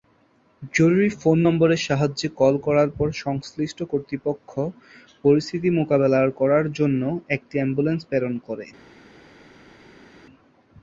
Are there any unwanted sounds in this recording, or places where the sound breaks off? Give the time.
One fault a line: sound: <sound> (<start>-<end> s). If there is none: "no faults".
no faults